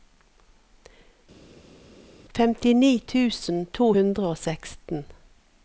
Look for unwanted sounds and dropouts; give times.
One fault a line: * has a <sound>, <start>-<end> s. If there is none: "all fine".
all fine